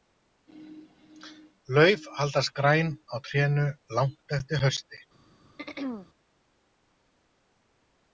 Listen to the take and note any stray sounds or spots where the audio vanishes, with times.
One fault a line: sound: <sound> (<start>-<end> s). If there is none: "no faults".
sound: throat clearing (5.6-6.1 s)